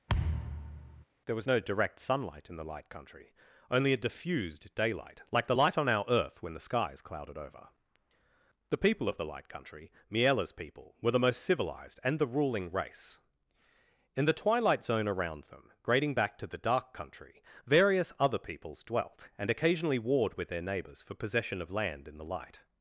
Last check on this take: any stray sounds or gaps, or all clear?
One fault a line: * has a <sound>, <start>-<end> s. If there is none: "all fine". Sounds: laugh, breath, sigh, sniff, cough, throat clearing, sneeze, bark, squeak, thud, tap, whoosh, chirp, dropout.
* has a thud, 0.1-1.0 s